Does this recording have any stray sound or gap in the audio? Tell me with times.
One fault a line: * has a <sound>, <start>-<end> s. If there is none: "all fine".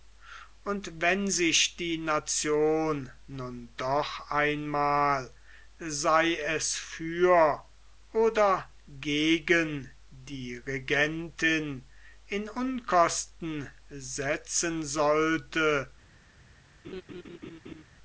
* has a laugh, 16.8-17.8 s